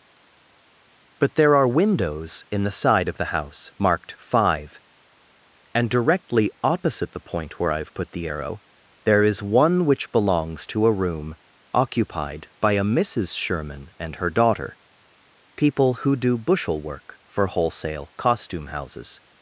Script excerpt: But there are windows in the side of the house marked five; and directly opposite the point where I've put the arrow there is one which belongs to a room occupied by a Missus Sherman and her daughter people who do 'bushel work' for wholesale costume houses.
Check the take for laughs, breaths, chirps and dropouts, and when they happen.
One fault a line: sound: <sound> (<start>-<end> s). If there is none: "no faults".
no faults